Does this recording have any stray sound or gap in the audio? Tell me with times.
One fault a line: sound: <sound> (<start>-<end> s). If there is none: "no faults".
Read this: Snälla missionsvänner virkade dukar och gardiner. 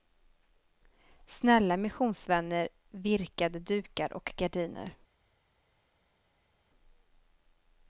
no faults